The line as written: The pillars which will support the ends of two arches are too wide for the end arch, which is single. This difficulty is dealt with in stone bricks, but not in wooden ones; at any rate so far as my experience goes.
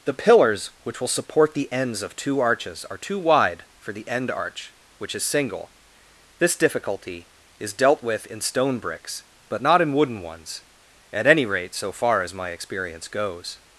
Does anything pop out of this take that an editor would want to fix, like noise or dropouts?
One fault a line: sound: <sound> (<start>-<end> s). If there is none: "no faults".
no faults